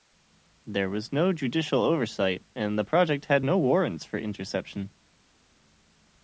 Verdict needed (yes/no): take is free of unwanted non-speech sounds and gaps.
yes